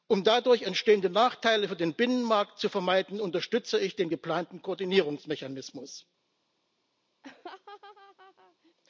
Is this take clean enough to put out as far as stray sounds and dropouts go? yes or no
no